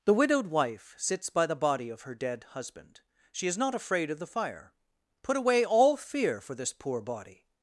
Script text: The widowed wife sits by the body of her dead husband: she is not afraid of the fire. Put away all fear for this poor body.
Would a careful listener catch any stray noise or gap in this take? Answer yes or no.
no